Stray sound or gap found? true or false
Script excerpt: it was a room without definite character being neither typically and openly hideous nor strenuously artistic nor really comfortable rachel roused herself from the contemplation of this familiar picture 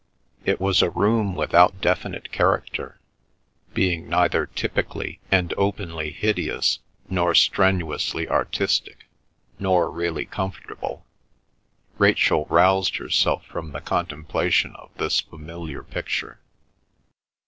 false